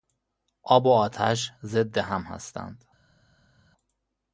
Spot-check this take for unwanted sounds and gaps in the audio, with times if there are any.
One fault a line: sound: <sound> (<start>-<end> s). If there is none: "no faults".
no faults